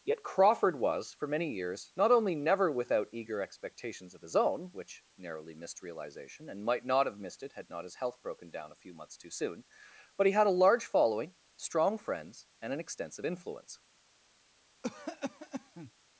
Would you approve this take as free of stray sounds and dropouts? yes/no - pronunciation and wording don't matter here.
no